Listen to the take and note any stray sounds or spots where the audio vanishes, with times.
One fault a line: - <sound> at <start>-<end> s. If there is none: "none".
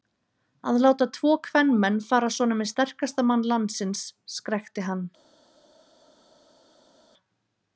none